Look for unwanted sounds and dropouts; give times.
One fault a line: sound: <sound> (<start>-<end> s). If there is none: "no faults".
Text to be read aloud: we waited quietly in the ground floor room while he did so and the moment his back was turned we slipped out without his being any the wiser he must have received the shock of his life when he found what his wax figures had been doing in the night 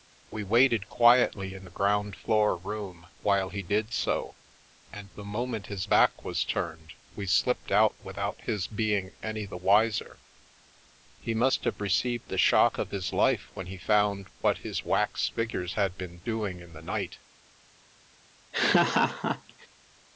sound: laugh (18.5-19.7 s)